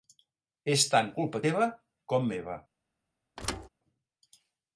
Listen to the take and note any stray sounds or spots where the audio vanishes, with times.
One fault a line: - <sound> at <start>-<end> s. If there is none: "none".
- thud at 3.4-3.7 s